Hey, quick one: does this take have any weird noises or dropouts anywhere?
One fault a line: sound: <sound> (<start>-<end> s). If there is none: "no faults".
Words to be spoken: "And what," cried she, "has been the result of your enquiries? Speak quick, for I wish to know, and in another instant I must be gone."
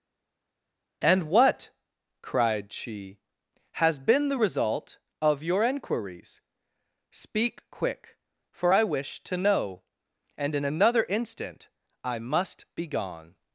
no faults